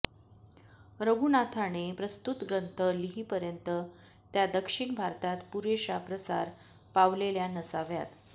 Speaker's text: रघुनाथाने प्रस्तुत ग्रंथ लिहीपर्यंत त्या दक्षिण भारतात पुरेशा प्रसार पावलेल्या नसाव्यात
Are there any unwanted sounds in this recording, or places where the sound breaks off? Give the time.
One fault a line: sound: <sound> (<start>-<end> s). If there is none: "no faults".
no faults